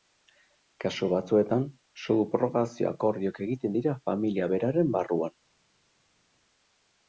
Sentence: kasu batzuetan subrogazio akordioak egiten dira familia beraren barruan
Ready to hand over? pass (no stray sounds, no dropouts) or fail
pass